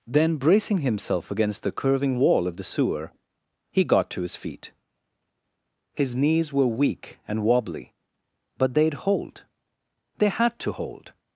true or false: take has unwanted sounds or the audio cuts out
false